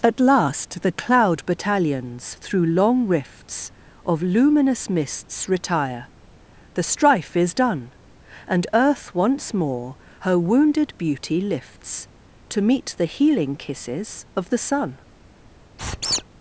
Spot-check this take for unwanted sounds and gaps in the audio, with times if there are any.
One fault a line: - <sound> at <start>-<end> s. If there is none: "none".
- squeak at 15.8-16.2 s